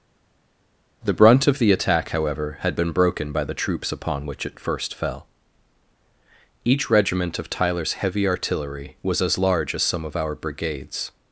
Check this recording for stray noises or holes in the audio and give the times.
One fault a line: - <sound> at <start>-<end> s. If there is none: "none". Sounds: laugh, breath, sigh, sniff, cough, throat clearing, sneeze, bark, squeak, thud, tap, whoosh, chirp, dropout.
none